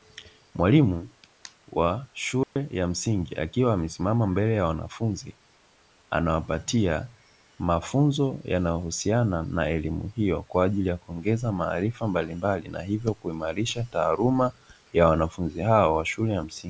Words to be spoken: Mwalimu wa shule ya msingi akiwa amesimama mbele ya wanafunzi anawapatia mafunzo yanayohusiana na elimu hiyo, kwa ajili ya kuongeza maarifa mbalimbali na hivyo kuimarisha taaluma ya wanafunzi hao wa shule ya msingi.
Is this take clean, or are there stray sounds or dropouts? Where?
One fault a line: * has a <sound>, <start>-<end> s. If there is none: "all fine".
* has a dropout, 2.4-2.6 s